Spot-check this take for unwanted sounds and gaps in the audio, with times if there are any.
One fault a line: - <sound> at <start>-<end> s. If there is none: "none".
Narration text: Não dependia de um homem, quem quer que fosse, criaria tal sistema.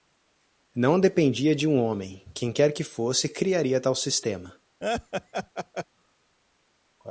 - laugh at 4.8-5.9 s